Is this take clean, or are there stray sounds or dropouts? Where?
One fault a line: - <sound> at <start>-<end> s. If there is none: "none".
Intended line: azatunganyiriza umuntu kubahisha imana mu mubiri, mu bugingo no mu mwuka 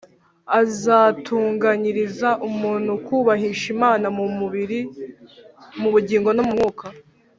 none